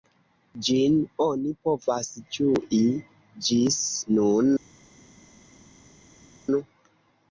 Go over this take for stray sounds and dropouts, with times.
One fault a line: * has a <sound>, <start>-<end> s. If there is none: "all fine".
all fine